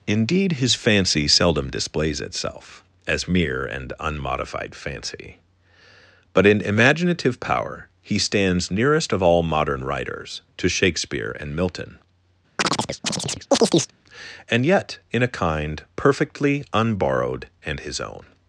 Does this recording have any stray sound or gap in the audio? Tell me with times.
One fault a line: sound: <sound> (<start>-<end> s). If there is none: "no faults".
sound: chirp (12.6-13.9 s)